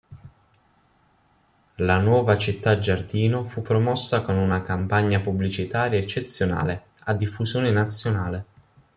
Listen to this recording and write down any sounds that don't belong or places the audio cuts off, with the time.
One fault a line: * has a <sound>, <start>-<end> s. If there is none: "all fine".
all fine